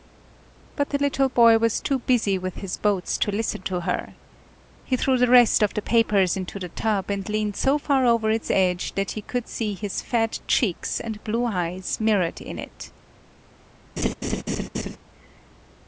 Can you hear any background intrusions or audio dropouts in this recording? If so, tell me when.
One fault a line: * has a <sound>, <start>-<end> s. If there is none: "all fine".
* has a laugh, 14.0-15.0 s